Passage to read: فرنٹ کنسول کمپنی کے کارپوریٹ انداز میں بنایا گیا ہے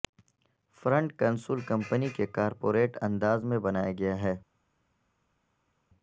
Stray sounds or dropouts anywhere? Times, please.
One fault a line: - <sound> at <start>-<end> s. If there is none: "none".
none